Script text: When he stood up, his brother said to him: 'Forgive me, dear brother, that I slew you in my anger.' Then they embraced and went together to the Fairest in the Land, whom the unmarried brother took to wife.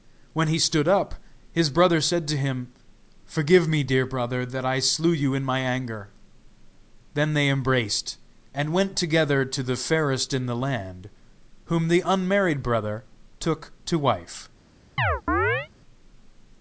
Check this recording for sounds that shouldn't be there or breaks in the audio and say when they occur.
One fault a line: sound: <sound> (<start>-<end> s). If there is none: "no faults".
sound: chirp (15.0-15.7 s)